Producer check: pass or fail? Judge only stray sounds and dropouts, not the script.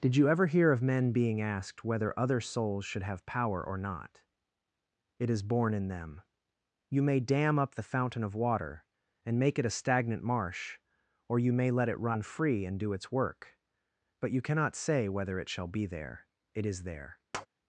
fail